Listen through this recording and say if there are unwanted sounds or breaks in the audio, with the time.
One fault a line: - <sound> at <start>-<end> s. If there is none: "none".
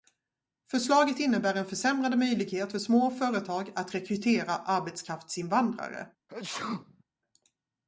- sneeze at 6.3-7.0 s